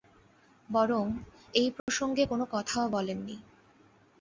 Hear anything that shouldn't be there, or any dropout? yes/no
yes